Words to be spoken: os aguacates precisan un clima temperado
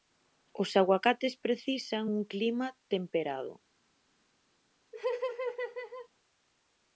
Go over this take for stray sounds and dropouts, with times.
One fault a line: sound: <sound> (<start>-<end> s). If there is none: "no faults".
sound: laugh (4.9-6.1 s)